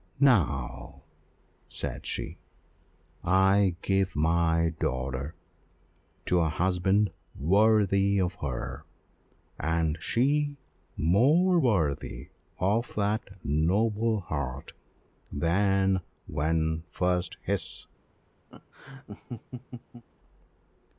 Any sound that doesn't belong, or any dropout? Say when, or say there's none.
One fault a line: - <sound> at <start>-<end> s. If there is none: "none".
- laugh at 18.5-20.0 s